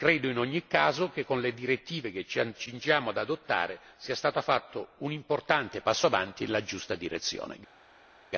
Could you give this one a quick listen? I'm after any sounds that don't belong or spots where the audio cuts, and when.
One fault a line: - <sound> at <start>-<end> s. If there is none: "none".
none